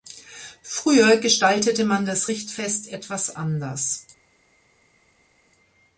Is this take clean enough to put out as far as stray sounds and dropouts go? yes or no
yes